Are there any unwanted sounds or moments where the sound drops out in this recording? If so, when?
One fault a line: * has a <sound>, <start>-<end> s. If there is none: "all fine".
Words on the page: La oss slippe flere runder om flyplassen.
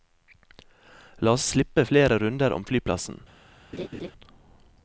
* has a laugh, 3.7-4.1 s